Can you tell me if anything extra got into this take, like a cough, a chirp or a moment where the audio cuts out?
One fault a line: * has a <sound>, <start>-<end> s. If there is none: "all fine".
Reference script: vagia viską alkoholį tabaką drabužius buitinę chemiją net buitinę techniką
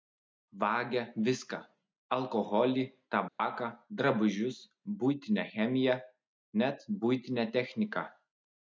* has a dropout, 3.3-3.4 s